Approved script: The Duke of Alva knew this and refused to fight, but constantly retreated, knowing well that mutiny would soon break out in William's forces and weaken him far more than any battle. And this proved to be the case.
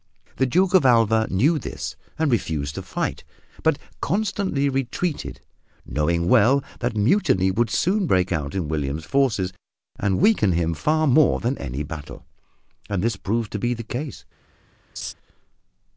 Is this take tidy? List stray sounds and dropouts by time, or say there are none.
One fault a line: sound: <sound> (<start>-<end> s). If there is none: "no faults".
sound: laugh (15.0-15.1 s)